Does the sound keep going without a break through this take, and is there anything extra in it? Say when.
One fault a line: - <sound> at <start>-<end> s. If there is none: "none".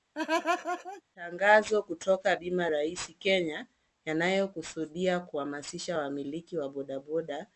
- laugh at 0.1-1.0 s